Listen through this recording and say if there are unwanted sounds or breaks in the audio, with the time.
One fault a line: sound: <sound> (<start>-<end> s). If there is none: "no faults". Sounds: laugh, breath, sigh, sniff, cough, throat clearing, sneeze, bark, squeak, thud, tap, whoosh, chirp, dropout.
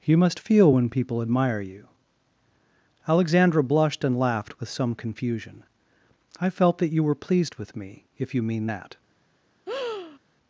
sound: breath (9.7-10.2 s)